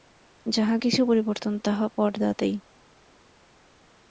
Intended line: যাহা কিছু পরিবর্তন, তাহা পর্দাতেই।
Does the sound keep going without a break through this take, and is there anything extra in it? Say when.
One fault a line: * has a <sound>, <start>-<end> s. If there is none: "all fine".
all fine